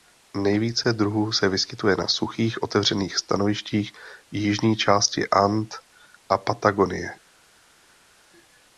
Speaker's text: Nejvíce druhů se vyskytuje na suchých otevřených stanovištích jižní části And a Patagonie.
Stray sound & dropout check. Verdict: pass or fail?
pass